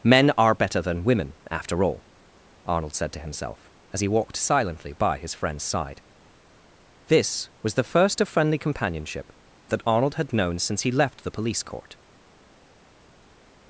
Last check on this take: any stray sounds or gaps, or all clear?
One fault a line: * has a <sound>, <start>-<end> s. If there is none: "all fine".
all fine